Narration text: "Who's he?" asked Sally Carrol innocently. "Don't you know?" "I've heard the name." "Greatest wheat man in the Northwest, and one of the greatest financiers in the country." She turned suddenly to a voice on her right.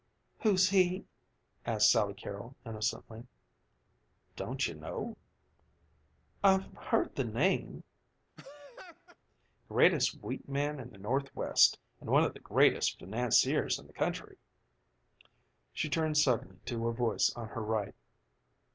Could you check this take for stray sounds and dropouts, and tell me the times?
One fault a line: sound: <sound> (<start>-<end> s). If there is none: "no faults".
sound: laugh (8.4-9.2 s)